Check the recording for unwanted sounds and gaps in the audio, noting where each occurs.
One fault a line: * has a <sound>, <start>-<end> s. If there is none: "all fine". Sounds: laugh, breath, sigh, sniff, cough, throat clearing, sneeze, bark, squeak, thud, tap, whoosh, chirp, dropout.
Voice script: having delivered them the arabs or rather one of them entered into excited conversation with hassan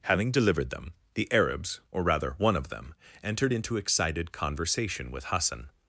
all fine